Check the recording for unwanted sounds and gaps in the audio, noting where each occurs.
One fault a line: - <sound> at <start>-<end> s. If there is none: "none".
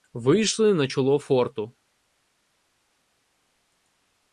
none